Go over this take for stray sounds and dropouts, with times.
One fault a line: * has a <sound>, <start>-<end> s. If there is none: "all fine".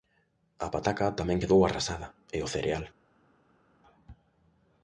all fine